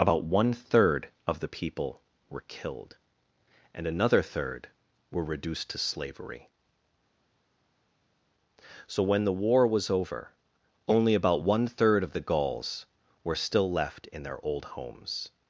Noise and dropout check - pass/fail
pass